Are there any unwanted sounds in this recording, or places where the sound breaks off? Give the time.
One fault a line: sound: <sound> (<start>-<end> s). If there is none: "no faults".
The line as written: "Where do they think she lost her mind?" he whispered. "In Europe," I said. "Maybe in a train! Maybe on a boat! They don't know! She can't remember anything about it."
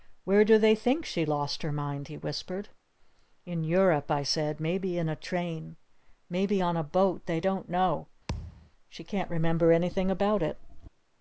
sound: thud (8.3-8.7 s)